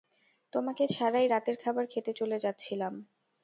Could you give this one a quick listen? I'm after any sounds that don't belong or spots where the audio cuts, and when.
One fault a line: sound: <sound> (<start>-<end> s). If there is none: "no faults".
no faults